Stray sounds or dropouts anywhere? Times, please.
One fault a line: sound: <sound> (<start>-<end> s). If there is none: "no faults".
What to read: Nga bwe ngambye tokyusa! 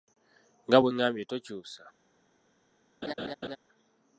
sound: laugh (3.0-3.6 s)